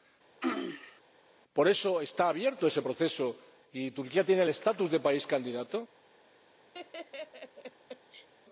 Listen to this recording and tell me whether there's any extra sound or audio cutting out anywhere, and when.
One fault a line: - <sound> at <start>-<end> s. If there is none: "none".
- throat clearing at 0.4-1.0 s
- laugh at 6.7-8.3 s